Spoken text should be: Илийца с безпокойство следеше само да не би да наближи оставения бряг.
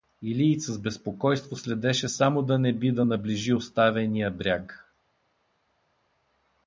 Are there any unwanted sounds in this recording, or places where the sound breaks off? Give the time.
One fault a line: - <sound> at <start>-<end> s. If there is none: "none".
none